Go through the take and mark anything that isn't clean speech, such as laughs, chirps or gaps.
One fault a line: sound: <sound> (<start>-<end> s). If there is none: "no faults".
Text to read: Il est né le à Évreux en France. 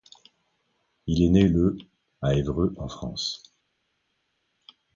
no faults